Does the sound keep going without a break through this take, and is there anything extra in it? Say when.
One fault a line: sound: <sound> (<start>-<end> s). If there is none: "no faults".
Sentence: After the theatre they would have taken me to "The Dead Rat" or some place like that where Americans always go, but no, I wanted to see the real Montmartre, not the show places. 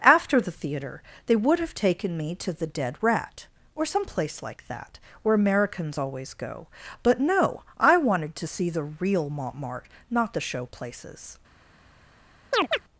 sound: chirp (12.5-12.8 s)